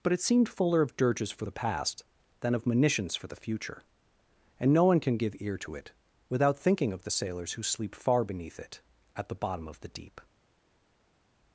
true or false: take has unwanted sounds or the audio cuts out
false